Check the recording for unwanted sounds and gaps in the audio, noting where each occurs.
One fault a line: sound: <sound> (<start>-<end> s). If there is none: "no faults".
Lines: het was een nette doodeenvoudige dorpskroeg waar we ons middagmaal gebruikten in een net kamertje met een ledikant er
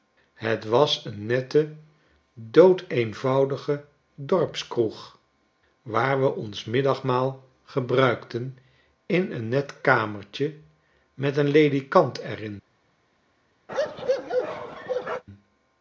sound: bark (13.7-15.2 s)